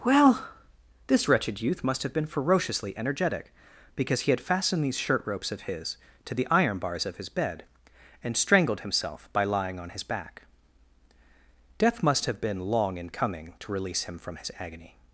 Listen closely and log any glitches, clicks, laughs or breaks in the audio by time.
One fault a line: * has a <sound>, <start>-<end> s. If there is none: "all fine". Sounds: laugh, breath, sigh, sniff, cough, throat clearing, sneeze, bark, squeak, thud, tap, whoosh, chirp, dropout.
all fine